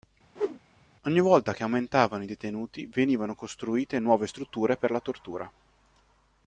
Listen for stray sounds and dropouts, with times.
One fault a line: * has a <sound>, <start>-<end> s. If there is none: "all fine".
* has a whoosh, 0.3-0.6 s